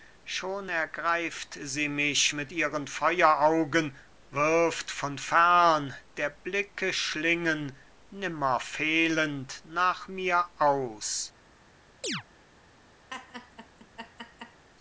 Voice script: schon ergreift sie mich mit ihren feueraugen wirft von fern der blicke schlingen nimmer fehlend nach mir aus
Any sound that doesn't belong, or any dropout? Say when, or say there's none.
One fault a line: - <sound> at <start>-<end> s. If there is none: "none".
- chirp at 12.0-12.2 s
- laugh at 13.1-14.7 s